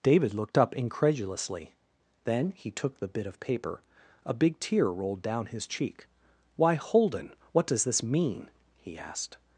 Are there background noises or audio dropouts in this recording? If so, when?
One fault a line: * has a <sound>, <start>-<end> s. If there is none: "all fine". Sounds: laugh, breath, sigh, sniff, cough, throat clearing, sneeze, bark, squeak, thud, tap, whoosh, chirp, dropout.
all fine